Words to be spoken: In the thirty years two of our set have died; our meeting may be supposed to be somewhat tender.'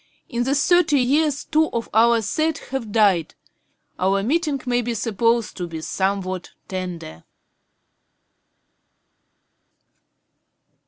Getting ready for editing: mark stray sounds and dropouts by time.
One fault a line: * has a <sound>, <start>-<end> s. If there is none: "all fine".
all fine